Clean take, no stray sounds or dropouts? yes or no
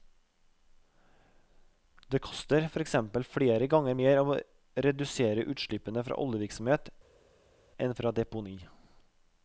yes